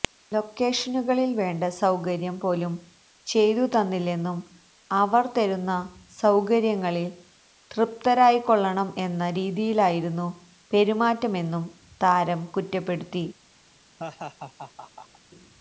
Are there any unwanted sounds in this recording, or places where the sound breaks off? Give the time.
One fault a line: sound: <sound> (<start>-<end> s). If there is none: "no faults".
sound: laugh (14.0-15.2 s)